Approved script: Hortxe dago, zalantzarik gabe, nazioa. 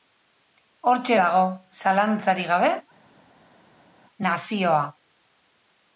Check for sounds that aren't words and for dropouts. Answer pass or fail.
pass